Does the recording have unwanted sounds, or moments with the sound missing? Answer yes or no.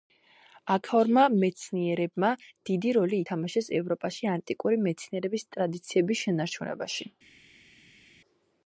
no